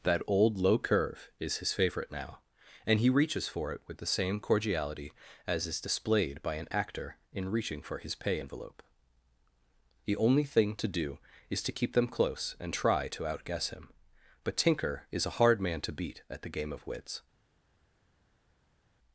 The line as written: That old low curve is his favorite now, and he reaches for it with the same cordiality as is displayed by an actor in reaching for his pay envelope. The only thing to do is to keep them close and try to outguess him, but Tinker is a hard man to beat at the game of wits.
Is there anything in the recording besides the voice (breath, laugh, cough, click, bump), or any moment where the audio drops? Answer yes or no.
no